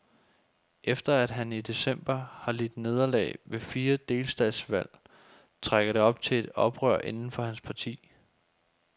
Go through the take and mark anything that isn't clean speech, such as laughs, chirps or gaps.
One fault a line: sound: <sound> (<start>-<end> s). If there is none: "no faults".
no faults